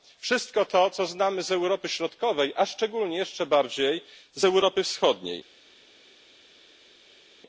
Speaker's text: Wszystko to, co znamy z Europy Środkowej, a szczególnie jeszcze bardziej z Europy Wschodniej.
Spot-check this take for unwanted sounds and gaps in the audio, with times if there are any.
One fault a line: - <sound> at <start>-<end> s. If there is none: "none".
none